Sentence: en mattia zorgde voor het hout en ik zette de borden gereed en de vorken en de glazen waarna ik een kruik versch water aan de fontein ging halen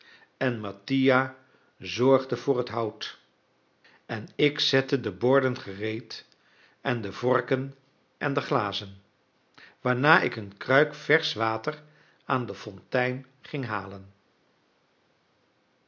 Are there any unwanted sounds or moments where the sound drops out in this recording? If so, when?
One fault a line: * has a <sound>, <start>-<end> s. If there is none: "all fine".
all fine